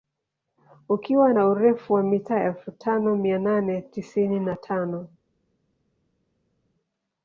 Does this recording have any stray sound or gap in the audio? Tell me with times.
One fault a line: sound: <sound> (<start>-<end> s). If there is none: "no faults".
no faults